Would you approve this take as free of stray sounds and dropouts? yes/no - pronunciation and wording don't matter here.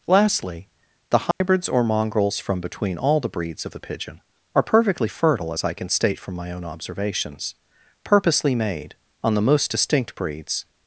no